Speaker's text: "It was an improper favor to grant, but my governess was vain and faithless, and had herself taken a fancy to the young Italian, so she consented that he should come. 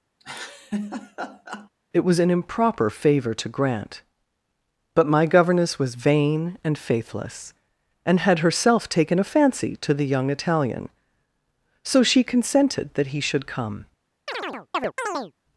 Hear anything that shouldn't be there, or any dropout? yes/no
yes